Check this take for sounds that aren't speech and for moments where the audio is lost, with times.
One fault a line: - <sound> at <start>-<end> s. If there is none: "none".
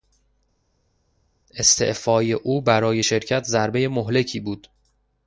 none